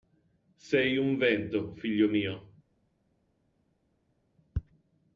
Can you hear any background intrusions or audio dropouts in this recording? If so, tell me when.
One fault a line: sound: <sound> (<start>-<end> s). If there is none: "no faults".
no faults